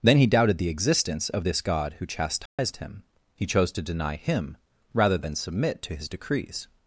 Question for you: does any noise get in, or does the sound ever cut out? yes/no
yes